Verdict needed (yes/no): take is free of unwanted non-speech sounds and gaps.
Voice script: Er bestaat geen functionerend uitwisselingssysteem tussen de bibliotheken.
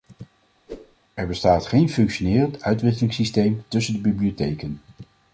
no